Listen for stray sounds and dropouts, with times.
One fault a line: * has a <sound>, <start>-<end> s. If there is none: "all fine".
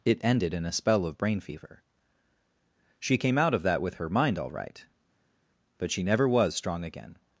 all fine